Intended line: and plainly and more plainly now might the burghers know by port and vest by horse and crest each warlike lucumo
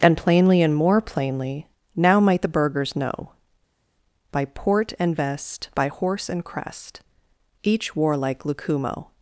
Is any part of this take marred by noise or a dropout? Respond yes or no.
no